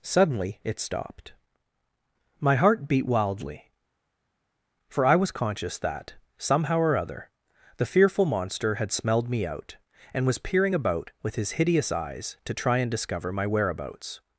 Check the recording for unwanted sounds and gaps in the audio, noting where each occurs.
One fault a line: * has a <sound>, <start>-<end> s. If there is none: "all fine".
all fine